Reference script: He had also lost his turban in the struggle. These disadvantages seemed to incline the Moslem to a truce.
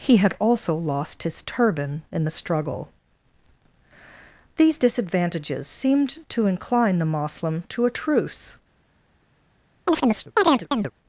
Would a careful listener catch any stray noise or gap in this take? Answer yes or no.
yes